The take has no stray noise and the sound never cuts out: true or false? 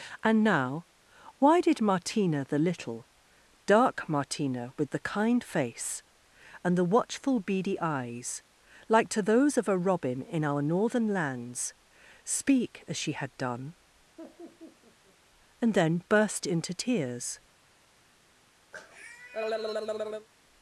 false